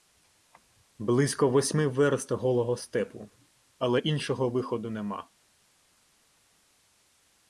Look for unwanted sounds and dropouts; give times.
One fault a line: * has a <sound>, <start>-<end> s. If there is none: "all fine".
all fine